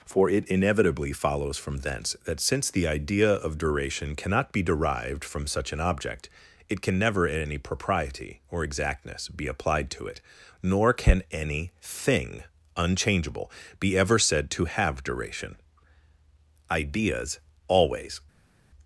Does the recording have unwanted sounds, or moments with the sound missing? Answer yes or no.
no